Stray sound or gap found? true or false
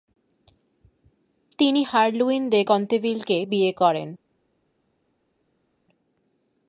false